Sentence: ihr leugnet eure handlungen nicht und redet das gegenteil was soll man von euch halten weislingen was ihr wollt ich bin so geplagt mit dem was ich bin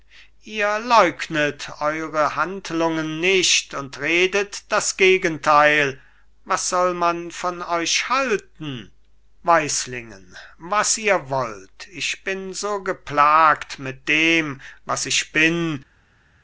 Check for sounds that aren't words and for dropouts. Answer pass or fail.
pass